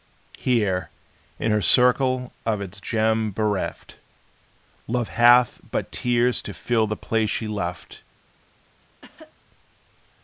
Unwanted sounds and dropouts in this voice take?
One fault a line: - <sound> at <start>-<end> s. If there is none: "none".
- cough at 9.0-9.3 s